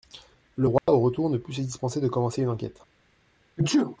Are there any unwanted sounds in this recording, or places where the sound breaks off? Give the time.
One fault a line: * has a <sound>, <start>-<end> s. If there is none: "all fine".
* has a dropout, 0.8-0.9 s
* has a sneeze, 3.6-4.0 s